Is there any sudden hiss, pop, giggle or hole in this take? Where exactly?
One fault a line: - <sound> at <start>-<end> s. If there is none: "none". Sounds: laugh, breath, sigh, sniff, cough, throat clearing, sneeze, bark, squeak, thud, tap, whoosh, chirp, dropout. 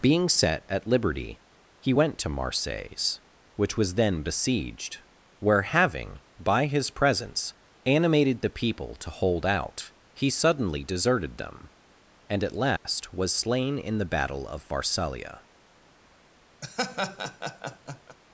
- dropout at 12.8-12.9 s
- laugh at 16.6-18.2 s